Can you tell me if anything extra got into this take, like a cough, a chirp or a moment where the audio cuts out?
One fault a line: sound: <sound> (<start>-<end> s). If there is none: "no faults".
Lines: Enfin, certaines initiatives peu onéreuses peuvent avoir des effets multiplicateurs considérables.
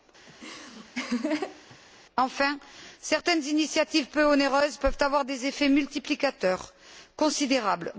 sound: laugh (0.3-1.8 s)